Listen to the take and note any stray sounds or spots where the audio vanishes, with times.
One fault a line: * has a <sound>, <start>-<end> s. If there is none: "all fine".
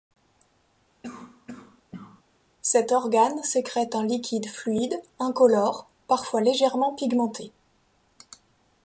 * has a cough, 1.0-2.2 s